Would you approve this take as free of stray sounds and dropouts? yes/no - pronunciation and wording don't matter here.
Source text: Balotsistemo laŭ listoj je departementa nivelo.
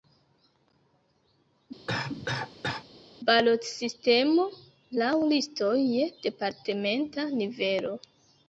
no